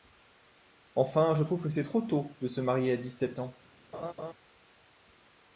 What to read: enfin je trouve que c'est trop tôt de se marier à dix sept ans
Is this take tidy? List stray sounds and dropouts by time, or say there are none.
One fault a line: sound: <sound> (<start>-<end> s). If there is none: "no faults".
sound: laugh (3.9-4.3 s)